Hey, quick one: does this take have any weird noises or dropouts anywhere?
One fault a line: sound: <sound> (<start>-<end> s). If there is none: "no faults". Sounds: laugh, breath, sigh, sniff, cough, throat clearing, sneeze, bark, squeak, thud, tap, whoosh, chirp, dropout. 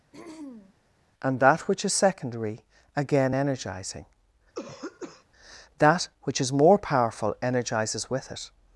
sound: throat clearing (0.1-0.7 s)
sound: throat clearing (4.5-5.2 s)